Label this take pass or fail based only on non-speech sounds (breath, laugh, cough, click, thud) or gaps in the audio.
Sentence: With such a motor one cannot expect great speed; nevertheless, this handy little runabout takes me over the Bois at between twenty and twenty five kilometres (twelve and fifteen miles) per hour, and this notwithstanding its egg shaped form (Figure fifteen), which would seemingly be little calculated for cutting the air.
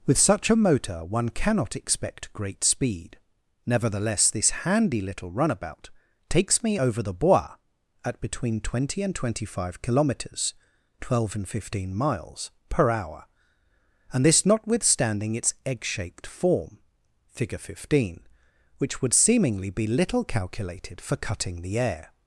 pass